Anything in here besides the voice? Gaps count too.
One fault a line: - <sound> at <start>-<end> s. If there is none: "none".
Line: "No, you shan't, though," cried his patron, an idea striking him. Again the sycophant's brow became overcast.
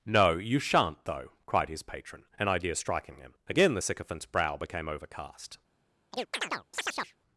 - chirp at 6.1-7.2 s